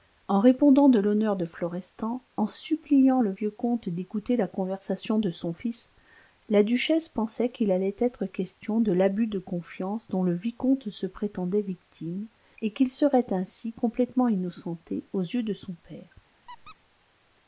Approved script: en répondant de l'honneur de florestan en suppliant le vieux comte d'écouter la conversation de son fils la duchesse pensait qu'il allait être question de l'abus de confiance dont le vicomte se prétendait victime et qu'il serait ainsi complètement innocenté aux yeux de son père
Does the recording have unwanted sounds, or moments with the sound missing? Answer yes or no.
yes